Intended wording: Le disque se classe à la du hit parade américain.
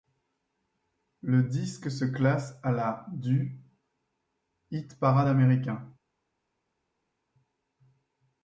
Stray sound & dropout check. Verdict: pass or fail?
pass